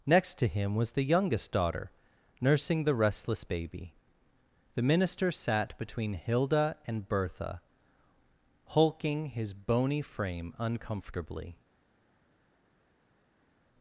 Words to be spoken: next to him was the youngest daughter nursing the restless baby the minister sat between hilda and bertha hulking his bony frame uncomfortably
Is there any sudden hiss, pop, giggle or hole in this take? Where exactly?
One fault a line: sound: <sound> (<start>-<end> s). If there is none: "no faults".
no faults